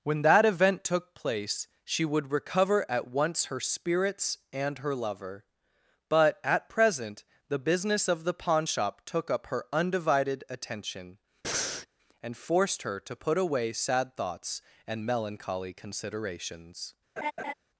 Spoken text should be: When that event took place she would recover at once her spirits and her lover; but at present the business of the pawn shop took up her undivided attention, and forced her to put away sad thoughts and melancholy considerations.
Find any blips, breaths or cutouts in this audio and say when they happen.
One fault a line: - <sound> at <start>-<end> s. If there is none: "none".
- breath at 11.4-11.9 s
- laugh at 17.2-17.5 s